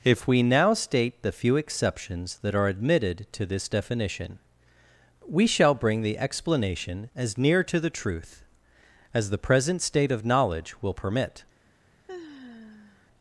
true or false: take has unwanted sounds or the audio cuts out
true